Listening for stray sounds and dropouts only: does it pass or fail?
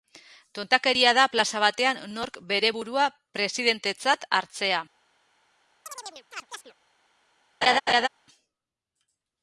fail